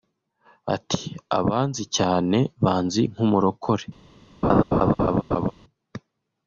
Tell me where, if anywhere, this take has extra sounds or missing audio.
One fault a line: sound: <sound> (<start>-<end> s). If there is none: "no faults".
sound: laugh (4.4-5.5 s)